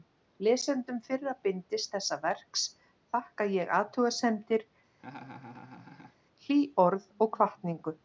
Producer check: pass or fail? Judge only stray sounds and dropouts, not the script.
fail